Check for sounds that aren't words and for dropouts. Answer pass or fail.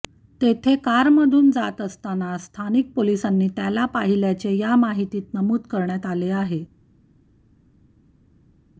pass